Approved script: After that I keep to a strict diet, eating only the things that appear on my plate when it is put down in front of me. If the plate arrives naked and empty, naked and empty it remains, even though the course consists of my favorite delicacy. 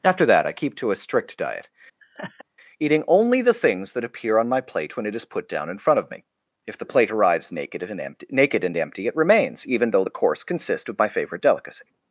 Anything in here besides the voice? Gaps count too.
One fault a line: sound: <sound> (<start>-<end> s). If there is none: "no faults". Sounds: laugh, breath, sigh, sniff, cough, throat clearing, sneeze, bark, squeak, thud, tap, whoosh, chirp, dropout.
sound: laugh (2.0-2.4 s)